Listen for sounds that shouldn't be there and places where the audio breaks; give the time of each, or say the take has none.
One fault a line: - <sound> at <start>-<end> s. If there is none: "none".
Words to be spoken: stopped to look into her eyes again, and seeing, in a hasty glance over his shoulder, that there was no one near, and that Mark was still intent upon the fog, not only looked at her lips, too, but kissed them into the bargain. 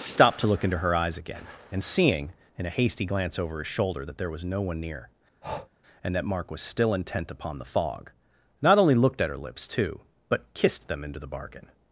- breath at 5.4-5.7 s